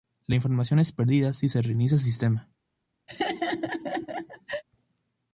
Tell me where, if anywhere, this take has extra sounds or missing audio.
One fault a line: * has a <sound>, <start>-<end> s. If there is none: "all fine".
* has a laugh, 3.1-4.6 s